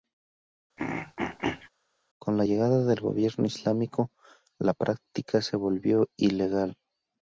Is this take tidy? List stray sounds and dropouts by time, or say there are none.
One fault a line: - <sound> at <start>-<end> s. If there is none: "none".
- throat clearing at 0.8-1.7 s